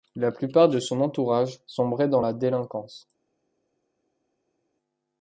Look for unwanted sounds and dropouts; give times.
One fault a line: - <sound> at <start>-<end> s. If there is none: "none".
none